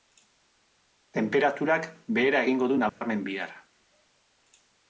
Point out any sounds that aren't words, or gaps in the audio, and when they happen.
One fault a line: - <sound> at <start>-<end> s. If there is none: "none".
- dropout at 2.9-3.0 s